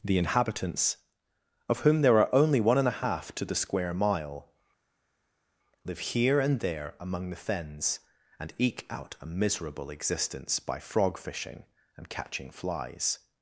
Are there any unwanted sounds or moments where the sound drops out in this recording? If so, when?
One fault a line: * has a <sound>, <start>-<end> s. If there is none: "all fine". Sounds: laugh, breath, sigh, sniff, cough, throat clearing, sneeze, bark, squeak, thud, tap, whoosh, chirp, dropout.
all fine